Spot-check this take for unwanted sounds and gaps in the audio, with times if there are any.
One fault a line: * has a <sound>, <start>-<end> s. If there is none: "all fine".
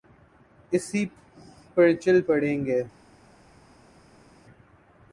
all fine